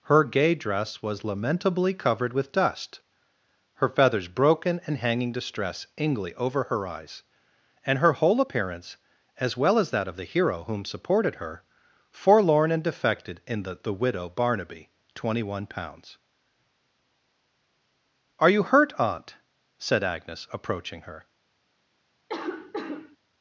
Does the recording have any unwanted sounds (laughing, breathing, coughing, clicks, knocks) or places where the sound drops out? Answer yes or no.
yes